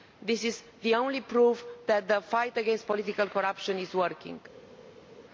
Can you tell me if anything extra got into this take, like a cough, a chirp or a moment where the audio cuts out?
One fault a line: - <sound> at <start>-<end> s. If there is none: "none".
none